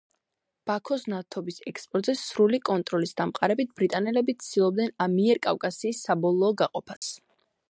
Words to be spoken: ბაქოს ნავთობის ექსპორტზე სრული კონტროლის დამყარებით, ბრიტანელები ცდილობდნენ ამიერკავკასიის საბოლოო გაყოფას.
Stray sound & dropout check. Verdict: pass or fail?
fail